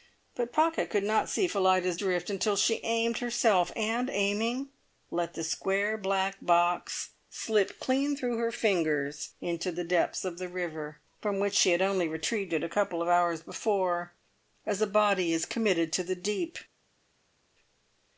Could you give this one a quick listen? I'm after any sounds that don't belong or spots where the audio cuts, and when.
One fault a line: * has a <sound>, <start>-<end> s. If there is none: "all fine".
all fine